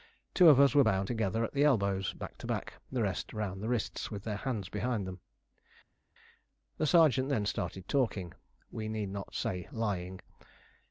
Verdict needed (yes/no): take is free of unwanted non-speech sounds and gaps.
yes